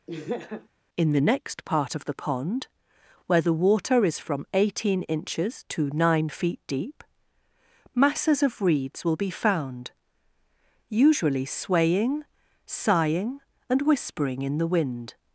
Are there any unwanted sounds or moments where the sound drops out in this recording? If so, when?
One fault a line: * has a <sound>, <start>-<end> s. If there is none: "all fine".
* has a laugh, 0.1-0.7 s